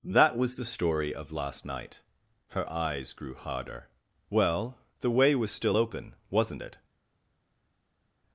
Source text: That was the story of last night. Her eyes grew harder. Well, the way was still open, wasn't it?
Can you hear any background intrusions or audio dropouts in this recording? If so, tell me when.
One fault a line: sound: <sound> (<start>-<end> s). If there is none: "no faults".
no faults